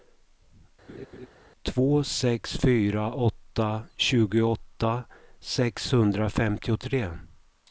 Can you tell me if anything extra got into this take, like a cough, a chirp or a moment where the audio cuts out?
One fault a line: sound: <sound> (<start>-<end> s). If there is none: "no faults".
sound: laugh (0.9-1.3 s)